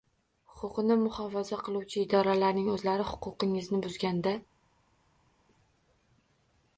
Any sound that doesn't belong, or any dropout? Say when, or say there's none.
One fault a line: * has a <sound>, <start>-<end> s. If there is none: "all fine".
all fine